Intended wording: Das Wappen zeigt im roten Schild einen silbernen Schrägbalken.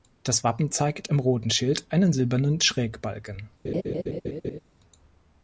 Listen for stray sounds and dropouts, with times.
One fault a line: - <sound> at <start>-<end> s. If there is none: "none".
- laugh at 3.6-4.6 s